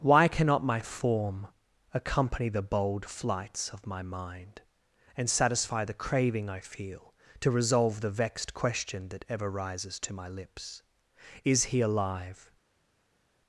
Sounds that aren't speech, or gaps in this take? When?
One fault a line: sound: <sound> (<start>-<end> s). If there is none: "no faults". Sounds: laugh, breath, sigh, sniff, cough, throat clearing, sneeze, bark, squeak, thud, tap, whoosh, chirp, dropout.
no faults